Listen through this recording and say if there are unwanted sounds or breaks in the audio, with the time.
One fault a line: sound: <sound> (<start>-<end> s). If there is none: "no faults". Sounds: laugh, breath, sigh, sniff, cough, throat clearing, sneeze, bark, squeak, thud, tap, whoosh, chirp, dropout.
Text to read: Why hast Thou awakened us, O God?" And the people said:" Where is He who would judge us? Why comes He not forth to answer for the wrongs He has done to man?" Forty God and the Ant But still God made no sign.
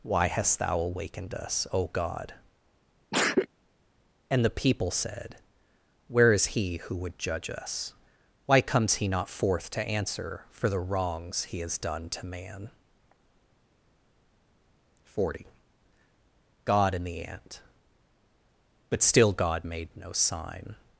sound: sneeze (3.1-3.5 s)